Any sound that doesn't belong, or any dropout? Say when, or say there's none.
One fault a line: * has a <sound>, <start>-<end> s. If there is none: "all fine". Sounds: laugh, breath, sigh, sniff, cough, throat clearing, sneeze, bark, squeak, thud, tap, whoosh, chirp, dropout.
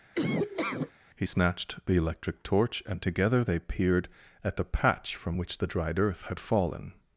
* has a laugh, 0.1-0.9 s